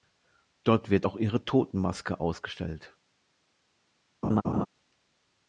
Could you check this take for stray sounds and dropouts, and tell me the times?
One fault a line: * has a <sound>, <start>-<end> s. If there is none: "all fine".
* has a laugh, 4.2-4.7 s